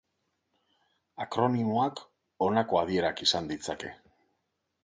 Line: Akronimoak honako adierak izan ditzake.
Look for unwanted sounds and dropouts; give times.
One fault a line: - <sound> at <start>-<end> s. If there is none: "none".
none